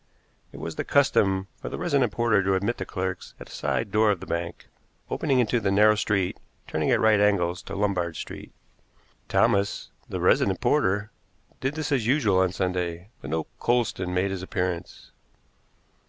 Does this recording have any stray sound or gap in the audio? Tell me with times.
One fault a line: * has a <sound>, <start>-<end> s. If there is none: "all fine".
all fine